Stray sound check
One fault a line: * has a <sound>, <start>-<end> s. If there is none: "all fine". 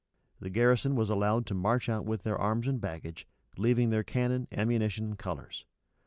all fine